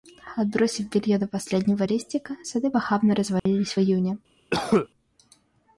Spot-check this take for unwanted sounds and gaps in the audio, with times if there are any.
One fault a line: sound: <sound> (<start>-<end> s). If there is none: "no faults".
sound: dropout (3.4-3.5 s)
sound: cough (4.5-4.9 s)